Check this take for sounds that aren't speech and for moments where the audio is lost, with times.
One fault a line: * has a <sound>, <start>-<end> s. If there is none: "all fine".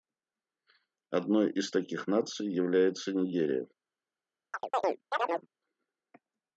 * has a chirp, 4.5-5.5 s